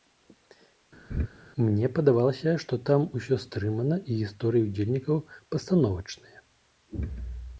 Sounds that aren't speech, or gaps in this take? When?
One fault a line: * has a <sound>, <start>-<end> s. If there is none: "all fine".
* has a laugh, 1.1-1.3 s